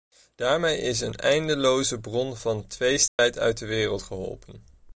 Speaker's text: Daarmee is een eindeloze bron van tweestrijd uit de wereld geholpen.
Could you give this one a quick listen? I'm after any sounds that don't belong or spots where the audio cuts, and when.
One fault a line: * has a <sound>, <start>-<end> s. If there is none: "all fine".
* has a dropout, 3.1-3.2 s